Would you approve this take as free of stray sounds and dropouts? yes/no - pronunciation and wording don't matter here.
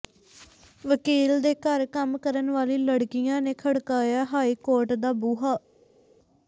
yes